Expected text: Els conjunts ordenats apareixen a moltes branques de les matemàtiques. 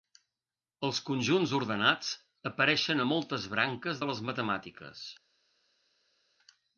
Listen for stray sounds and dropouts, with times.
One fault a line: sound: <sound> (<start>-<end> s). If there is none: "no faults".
no faults